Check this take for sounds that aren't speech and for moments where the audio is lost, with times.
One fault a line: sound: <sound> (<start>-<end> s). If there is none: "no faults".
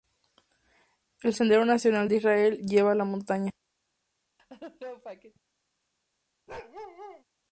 sound: laugh (4.4-5.4 s)
sound: bark (6.5-7.2 s)